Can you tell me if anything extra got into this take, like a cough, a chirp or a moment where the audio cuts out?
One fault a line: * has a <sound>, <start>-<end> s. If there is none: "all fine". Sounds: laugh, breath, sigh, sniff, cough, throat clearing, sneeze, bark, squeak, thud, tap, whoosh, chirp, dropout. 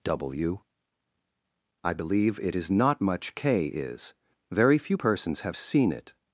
all fine